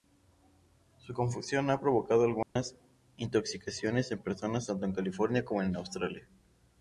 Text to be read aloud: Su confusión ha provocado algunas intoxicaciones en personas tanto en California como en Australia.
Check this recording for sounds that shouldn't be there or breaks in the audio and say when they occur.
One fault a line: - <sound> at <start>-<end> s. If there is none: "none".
- dropout at 2.4-2.6 s